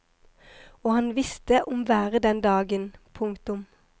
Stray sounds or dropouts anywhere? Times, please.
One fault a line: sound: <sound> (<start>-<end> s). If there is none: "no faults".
no faults